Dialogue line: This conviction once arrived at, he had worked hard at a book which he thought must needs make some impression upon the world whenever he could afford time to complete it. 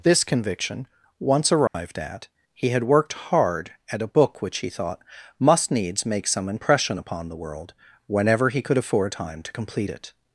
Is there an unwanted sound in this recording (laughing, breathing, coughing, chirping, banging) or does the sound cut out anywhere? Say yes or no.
yes